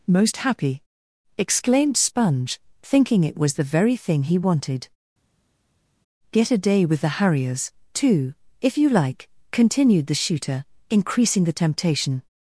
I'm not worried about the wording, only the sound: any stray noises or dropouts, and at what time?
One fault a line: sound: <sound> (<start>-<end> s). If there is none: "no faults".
no faults